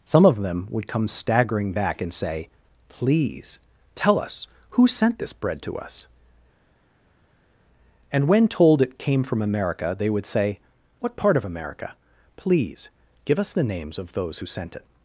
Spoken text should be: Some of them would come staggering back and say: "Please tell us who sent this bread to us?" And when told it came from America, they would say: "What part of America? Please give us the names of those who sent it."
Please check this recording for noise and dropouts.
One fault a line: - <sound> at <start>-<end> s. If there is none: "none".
none